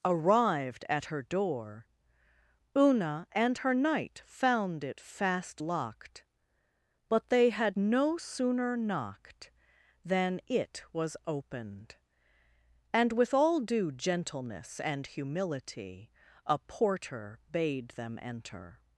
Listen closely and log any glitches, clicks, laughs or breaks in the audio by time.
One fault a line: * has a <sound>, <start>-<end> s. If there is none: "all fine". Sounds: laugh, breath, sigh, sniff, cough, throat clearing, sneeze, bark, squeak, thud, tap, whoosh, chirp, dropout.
all fine